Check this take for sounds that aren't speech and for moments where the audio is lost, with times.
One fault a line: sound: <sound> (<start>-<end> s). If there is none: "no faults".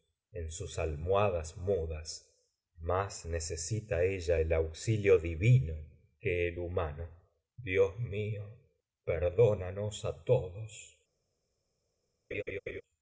sound: laugh (12.3-12.8 s)